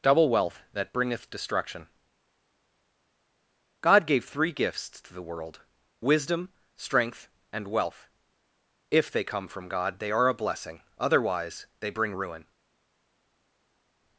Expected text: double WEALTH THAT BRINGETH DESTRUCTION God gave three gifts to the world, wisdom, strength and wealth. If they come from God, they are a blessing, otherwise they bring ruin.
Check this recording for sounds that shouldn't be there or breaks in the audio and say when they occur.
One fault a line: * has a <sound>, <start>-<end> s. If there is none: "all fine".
all fine